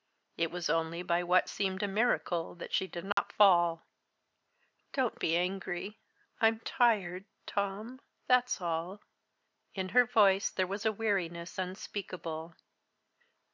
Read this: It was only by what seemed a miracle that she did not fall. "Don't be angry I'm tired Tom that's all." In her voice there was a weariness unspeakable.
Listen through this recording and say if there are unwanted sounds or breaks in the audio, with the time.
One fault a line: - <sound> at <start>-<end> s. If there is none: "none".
- dropout at 3.1-3.2 s